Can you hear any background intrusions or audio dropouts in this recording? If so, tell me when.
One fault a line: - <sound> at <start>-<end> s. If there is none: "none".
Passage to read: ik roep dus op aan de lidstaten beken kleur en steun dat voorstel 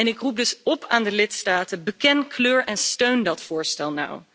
none